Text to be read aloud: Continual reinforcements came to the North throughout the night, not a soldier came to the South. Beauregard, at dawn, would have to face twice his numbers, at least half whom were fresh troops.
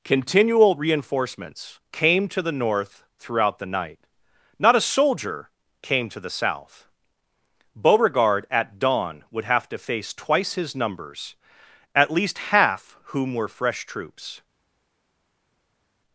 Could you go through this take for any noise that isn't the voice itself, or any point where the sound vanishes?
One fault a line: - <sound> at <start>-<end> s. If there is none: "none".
none